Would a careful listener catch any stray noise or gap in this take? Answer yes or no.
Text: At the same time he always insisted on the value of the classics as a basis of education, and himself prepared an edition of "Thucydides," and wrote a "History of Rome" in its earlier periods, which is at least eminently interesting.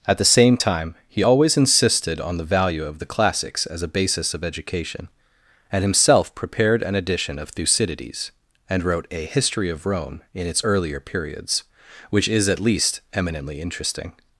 no